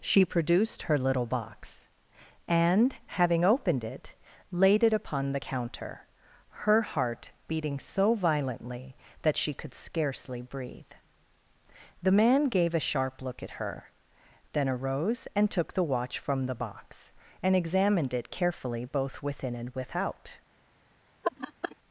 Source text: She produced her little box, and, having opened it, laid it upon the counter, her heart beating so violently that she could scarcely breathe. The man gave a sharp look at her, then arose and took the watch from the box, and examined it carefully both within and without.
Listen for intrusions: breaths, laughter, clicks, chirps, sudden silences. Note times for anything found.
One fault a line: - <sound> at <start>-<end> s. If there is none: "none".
- laugh at 21.2-21.8 s